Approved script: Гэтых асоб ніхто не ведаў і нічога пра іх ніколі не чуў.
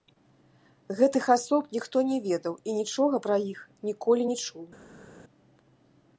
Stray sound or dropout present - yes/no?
no